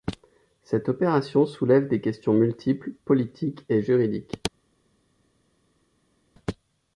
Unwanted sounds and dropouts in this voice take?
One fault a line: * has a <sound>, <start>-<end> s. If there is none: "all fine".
all fine